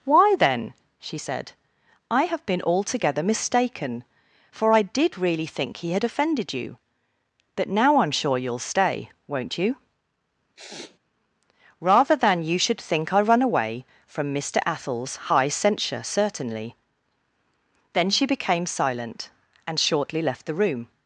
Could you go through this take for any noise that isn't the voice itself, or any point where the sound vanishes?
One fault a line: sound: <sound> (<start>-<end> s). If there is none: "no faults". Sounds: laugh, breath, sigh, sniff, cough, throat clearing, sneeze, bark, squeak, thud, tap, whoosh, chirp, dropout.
sound: sniff (10.6-11.0 s)